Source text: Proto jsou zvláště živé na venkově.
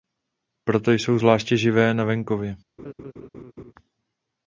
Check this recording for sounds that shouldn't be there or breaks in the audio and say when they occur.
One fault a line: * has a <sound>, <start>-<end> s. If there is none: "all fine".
* has a laugh, 2.8-3.7 s